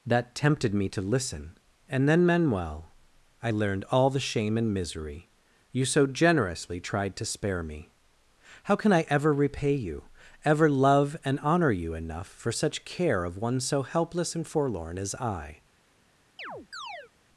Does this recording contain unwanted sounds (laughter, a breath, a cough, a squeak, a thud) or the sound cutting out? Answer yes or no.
yes